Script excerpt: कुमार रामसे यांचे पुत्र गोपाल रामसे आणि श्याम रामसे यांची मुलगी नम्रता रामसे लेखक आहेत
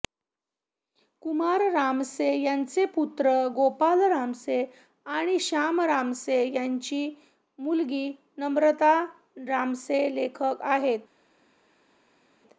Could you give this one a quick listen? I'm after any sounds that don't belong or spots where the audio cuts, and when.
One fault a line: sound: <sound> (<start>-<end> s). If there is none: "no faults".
no faults